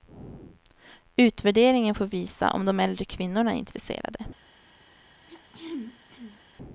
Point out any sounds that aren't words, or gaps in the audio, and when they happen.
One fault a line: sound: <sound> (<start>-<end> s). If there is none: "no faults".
sound: throat clearing (5.3-6.4 s)